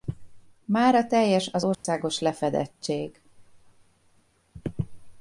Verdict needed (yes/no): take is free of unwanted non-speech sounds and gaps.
no